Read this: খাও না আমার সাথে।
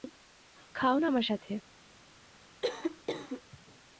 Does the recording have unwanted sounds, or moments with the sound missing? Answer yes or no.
yes